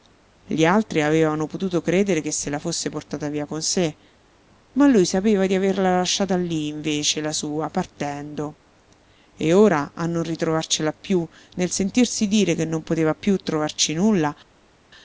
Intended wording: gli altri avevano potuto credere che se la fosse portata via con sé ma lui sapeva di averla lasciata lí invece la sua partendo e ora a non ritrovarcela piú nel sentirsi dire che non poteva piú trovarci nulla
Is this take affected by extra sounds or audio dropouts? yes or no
no